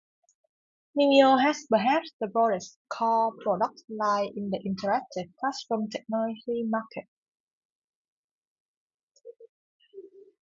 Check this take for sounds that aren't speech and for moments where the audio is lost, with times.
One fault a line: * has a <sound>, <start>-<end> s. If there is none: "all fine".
all fine